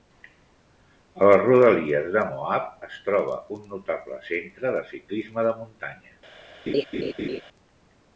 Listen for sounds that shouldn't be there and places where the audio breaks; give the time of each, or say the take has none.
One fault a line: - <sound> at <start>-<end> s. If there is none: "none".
- laugh at 6.7-7.4 s